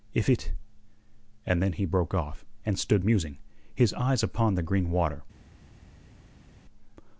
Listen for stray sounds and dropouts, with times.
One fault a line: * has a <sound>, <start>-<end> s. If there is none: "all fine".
all fine